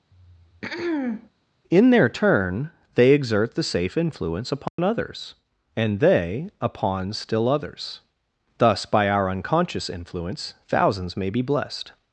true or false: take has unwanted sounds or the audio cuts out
true